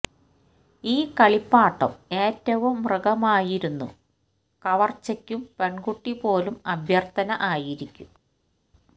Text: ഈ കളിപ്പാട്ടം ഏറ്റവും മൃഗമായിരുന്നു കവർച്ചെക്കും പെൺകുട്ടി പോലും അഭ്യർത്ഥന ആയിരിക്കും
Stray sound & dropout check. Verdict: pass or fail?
pass